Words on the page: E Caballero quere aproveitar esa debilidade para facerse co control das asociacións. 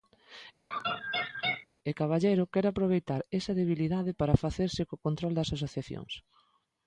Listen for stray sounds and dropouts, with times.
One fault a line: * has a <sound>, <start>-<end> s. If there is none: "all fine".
* has a laugh, 0.7-1.7 s